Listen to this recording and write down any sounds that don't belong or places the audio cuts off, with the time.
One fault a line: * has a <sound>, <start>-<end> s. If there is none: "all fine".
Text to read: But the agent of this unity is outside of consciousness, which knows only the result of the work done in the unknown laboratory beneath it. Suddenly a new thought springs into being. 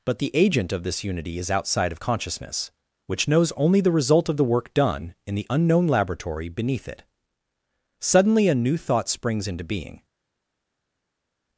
all fine